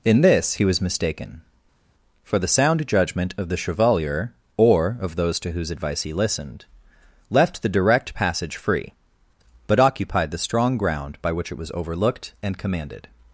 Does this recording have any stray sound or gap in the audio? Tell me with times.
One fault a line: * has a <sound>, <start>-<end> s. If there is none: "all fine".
all fine